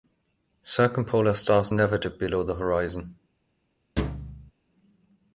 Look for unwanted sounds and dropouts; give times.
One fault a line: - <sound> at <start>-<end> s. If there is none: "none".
- thud at 4.0-4.5 s